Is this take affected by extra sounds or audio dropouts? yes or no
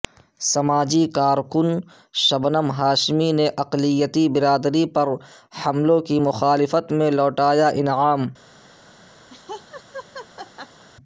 yes